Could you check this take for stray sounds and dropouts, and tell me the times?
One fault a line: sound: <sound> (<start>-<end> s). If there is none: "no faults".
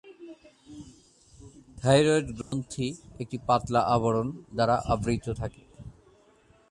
sound: dropout (2.4-2.5 s)